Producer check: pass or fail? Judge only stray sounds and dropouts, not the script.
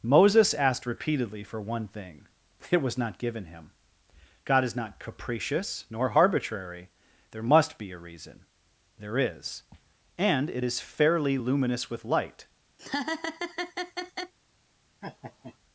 fail